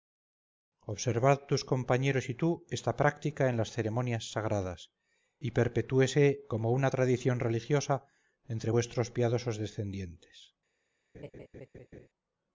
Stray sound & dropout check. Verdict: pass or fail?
fail